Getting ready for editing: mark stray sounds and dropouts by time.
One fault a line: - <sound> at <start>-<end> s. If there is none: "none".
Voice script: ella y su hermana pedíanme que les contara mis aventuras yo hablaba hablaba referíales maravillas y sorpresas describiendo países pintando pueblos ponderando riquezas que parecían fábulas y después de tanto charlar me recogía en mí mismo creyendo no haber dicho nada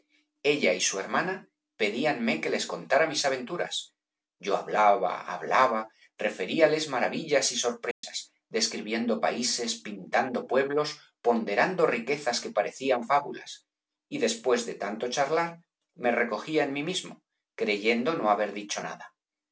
- dropout at 7.9-8.0 s